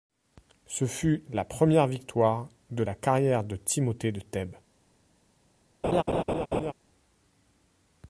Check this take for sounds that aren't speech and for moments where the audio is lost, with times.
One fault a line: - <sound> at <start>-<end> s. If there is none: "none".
- laugh at 5.8-6.7 s